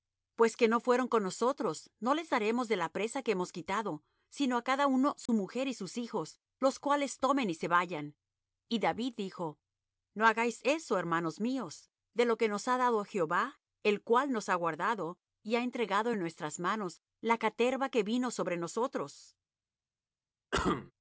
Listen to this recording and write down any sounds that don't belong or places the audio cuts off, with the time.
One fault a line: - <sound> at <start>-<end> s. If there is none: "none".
- dropout at 5.3-5.3 s
- cough at 20.5-20.9 s